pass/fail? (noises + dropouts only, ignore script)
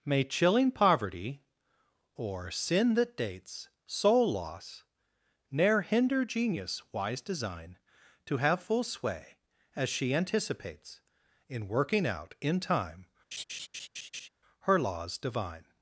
fail